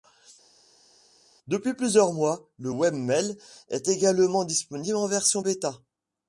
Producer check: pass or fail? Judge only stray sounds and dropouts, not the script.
pass